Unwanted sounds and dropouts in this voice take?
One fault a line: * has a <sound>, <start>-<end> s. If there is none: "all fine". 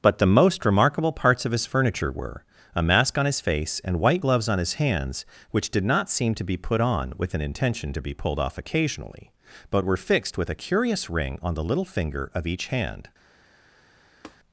* has a tap, 14.2-14.4 s